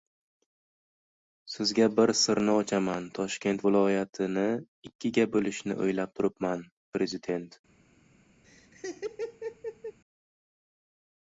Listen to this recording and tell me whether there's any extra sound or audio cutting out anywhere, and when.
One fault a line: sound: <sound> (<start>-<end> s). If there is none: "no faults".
sound: laugh (8.4-10.0 s)